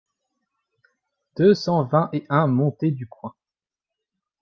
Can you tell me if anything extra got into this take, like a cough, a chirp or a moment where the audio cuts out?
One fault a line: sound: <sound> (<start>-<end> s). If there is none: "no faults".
no faults